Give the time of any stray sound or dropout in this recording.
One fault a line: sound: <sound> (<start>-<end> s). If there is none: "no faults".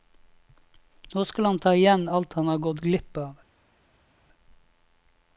no faults